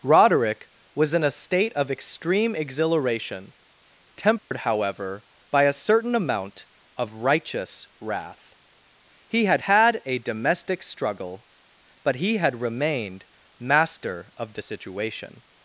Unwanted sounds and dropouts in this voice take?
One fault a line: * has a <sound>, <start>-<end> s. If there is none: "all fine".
* has a dropout, 4.4-4.5 s